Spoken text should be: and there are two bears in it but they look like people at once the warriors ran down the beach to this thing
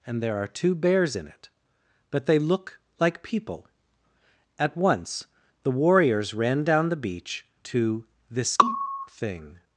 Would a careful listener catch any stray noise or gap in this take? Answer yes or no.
no